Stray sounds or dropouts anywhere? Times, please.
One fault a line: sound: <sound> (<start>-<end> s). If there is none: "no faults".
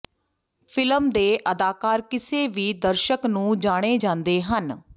no faults